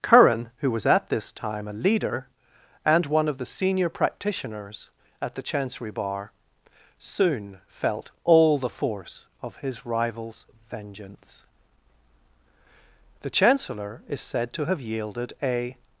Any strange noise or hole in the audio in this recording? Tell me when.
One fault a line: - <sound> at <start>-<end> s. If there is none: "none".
none